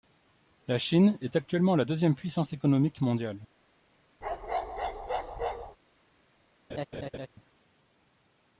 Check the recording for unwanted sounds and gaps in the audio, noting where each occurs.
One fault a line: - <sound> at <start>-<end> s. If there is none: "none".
- bark at 4.2-5.8 s
- laugh at 6.7-7.3 s